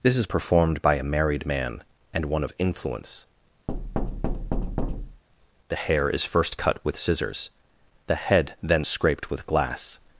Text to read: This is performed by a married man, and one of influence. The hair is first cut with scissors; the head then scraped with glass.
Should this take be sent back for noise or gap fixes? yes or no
yes